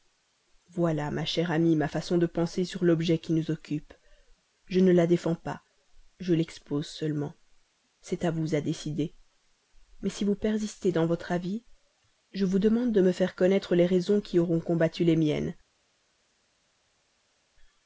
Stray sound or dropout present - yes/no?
no